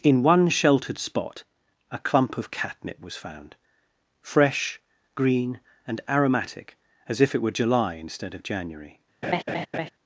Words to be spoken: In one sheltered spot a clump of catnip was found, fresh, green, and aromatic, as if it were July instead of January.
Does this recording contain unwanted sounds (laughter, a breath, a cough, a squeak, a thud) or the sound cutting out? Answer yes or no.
yes